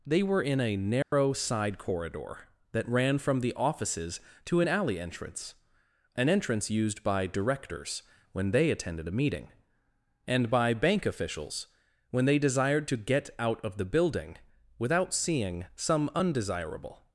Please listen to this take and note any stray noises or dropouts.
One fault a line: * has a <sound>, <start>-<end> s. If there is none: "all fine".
* has a dropout, 1.0-1.1 s